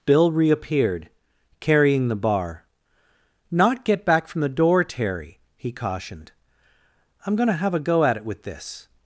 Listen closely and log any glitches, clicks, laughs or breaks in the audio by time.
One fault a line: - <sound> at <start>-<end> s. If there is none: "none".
none